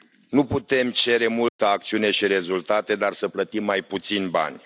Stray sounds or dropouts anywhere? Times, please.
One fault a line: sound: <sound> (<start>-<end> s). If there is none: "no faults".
sound: dropout (1.5-1.6 s)